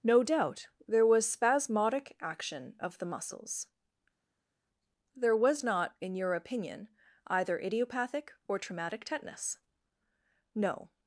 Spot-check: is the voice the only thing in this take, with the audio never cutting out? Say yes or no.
yes